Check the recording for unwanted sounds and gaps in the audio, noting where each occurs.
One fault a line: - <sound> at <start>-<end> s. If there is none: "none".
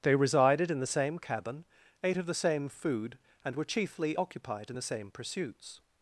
none